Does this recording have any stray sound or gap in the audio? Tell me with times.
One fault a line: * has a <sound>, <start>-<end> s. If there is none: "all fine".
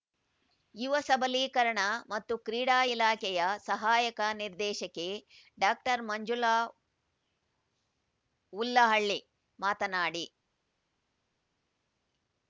all fine